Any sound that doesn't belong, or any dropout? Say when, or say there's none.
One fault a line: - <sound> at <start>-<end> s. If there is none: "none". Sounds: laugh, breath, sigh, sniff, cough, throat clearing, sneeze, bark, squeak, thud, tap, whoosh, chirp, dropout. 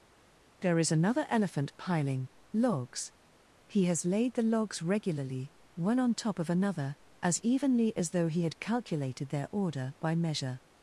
none